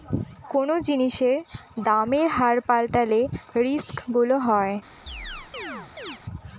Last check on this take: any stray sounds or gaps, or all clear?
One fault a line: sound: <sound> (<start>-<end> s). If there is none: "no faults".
sound: chirp (5.1-6.2 s)